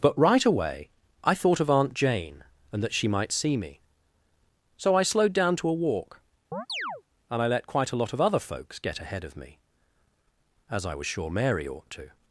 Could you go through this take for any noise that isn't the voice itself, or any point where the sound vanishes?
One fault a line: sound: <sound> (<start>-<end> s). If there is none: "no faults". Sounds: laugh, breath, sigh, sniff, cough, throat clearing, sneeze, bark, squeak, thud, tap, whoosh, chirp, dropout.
sound: chirp (6.5-7.0 s)